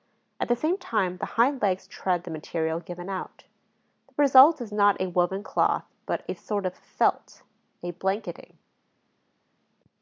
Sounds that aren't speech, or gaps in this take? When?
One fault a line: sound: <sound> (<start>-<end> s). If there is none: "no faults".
no faults